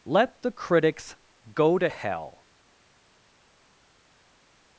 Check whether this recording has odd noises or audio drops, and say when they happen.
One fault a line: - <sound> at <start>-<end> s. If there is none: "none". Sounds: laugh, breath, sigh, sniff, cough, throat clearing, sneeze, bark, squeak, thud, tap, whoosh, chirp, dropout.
none